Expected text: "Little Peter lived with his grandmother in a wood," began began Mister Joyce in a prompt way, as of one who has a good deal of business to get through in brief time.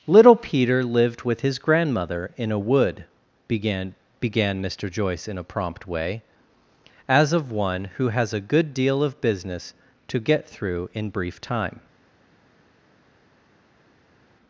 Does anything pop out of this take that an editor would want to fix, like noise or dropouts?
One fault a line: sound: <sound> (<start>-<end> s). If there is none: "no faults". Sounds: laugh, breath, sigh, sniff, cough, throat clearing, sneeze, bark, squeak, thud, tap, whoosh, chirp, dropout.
no faults